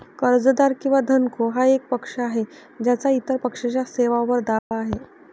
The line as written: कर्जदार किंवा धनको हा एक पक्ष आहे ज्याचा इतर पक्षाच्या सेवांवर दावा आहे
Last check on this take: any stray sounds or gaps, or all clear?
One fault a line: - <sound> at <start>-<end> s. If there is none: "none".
- dropout at 4.6-4.7 s